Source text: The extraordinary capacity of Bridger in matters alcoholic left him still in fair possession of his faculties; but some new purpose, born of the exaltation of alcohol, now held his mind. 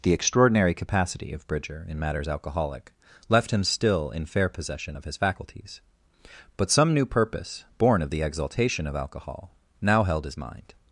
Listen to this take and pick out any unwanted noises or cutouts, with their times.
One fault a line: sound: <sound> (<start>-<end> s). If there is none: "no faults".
no faults